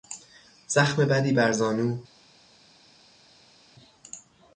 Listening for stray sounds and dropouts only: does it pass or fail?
pass